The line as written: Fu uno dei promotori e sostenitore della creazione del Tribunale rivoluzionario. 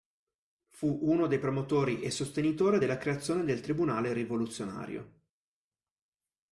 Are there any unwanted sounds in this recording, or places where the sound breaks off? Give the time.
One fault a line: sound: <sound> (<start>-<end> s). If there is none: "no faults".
no faults